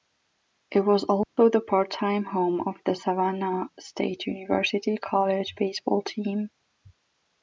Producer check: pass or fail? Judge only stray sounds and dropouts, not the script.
fail